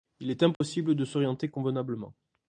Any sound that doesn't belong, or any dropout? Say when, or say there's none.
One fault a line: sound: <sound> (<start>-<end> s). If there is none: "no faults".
sound: dropout (0.5-0.6 s)